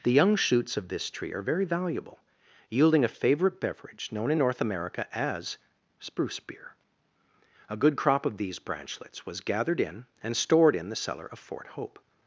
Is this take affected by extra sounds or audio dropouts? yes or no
no